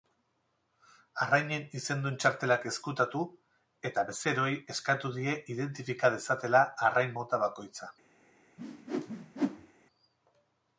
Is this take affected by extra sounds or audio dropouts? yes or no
yes